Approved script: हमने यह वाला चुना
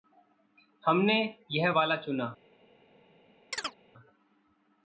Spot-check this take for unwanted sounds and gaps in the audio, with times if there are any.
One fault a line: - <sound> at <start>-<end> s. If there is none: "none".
- chirp at 3.5-3.8 s